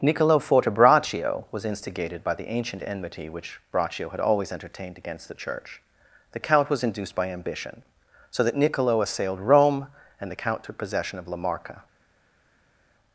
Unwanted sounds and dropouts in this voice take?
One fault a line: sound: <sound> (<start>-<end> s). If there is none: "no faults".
no faults